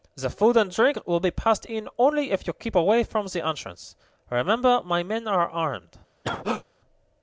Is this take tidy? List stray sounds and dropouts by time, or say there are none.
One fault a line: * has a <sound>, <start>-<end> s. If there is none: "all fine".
* has a cough, 6.2-6.6 s